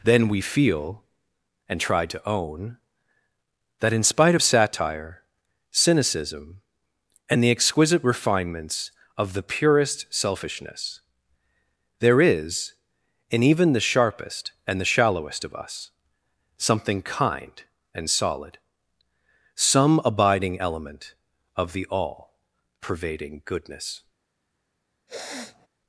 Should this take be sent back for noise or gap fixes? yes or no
yes